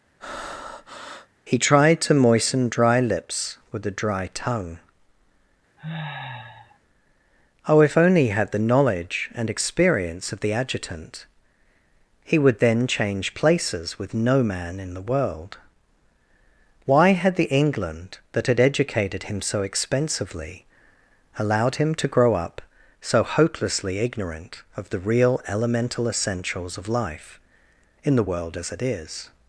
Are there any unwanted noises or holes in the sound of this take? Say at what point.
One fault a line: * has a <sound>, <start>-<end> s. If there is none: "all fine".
* has a breath, 0.2-1.3 s
* has a sniff, 5.8-6.8 s